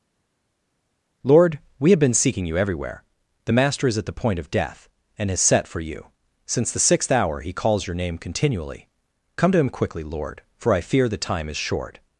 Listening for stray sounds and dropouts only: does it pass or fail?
pass